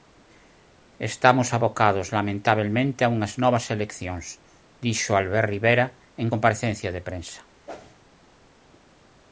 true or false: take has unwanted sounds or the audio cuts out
true